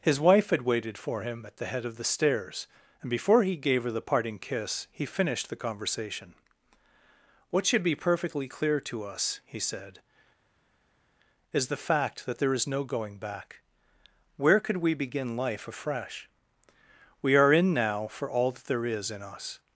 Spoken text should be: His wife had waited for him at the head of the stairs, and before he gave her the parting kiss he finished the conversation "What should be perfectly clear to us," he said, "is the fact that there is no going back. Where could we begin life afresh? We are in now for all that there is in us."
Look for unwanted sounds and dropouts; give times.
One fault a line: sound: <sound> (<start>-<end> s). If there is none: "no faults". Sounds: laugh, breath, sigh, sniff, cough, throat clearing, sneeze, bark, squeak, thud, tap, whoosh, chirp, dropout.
no faults